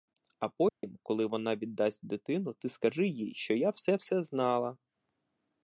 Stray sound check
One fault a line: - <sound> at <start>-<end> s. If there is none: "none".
- dropout at 0.7-0.8 s